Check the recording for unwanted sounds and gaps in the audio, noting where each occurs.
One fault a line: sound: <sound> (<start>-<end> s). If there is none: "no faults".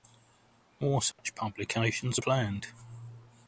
sound: dropout (1.1-1.2 s)